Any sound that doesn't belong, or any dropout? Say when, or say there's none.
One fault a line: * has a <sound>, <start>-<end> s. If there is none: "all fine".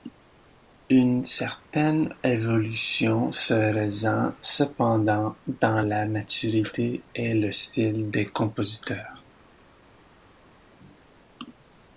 all fine